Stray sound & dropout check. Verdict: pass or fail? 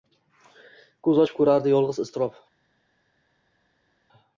pass